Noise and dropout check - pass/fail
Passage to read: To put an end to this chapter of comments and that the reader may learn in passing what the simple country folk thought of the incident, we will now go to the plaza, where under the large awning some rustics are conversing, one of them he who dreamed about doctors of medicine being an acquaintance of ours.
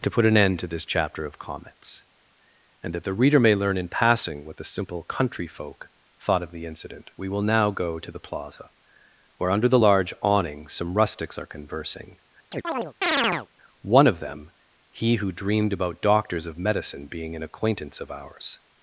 fail